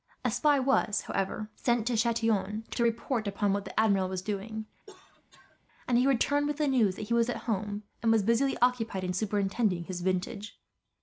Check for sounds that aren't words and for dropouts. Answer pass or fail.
fail